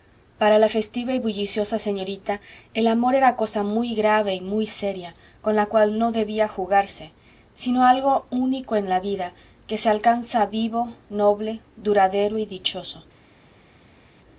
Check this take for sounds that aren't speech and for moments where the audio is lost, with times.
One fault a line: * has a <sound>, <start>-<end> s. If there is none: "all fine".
all fine